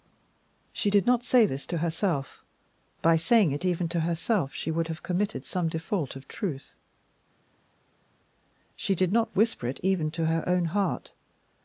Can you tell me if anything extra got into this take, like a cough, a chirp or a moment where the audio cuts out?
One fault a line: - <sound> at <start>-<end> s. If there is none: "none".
none